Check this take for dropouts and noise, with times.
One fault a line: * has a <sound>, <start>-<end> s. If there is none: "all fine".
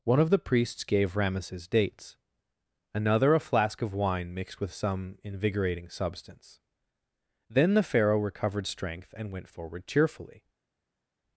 all fine